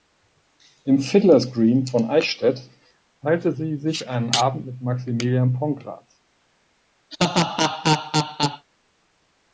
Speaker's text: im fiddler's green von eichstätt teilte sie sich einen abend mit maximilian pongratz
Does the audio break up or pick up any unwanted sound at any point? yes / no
yes